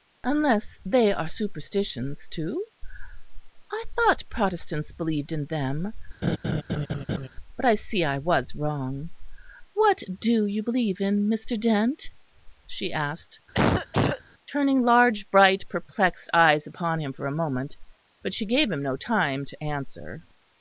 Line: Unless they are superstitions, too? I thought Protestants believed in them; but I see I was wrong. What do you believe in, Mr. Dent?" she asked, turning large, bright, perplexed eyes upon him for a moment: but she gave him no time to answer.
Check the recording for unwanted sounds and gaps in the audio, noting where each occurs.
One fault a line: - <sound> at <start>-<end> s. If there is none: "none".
- laugh at 6.2-7.3 s
- cough at 13.5-14.2 s